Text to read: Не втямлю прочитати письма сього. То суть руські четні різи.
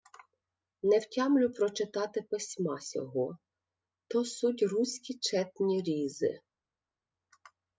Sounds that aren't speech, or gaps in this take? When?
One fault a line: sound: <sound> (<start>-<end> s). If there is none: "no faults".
no faults